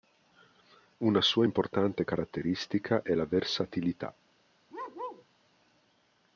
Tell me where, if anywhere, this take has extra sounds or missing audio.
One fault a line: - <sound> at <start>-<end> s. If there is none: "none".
- bark at 4.7-5.2 s